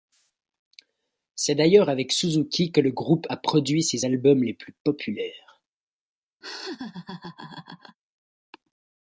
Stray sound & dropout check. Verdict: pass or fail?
fail